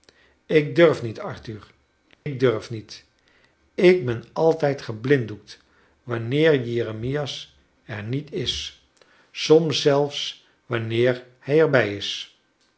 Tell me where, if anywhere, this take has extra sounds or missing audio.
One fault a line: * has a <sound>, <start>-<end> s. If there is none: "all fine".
* has a dropout, 2.1-2.3 s